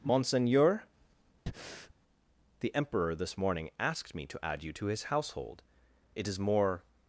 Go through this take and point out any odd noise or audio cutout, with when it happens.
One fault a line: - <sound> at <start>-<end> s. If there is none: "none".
- breath at 1.5-1.9 s